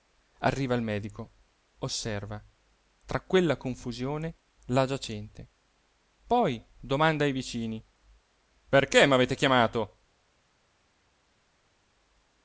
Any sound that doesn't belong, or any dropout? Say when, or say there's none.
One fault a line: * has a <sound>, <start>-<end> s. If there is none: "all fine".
all fine